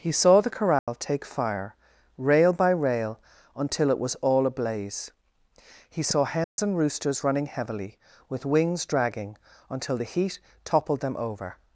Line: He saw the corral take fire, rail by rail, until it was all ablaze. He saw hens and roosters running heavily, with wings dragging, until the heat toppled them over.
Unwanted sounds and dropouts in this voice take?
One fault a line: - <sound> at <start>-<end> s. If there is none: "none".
- dropout at 0.8-0.9 s
- dropout at 6.4-6.6 s